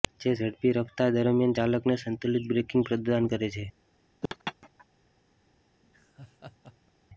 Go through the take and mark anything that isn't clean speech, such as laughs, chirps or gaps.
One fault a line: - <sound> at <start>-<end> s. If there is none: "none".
- laugh at 4.2-4.9 s
- laugh at 5.8-6.9 s